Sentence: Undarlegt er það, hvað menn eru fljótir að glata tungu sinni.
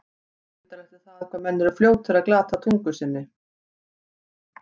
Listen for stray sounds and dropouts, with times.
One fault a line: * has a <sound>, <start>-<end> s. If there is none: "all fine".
all fine